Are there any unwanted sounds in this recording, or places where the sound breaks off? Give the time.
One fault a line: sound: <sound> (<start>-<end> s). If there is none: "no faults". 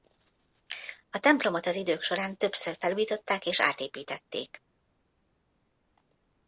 no faults